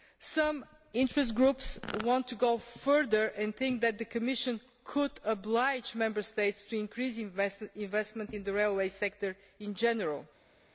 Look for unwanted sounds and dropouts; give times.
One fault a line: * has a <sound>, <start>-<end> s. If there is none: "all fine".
all fine